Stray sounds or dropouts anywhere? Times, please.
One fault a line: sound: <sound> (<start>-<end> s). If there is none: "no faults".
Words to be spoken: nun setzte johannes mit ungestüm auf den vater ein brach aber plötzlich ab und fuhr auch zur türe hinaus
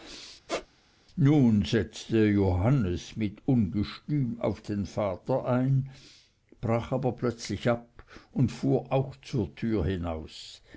sound: squeak (0.5-0.7 s)